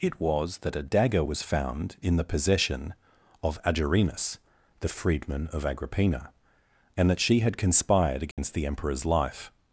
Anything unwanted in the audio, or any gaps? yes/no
yes